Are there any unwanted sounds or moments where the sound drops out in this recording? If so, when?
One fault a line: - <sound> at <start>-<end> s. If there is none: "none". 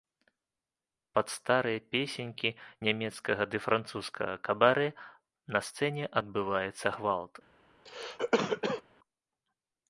- cough at 7.8-8.8 s